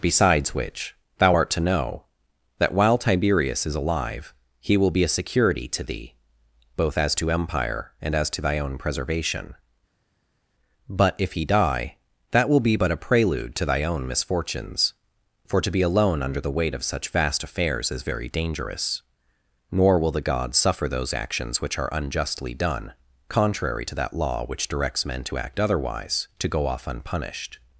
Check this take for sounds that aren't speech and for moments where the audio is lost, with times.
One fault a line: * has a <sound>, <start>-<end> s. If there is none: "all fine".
all fine